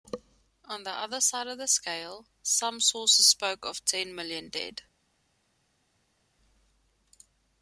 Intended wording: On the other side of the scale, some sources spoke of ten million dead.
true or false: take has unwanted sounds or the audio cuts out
false